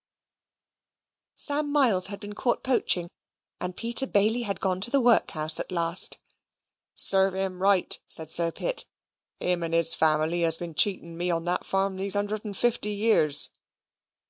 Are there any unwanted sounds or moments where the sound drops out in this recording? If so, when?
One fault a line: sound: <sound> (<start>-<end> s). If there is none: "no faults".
no faults